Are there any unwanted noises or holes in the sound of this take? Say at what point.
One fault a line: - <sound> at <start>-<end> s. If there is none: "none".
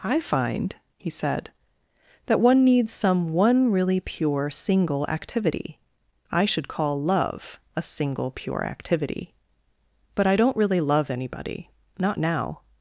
none